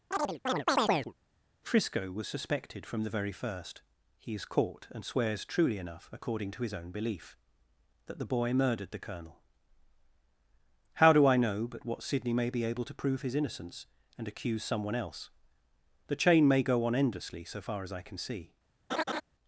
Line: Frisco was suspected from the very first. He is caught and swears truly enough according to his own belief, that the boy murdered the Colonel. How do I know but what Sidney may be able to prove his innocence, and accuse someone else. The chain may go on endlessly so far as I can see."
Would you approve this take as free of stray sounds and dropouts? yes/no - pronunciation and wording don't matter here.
no